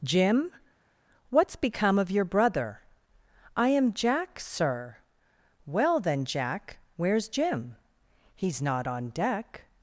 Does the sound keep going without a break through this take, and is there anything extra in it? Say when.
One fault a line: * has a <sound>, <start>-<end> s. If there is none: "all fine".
all fine